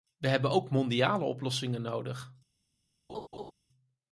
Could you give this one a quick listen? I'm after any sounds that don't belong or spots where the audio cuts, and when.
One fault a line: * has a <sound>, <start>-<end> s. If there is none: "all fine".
* has a laugh, 3.1-3.5 s